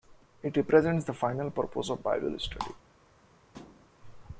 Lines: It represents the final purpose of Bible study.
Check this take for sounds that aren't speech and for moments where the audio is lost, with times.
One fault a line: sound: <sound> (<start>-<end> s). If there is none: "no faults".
sound: thud (3.5-3.9 s)